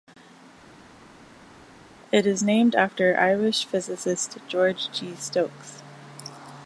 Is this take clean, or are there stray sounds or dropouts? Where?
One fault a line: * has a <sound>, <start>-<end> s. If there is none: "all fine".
all fine